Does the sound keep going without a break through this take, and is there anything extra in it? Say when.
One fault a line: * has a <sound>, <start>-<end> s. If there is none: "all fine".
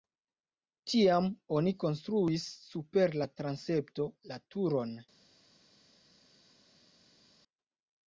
all fine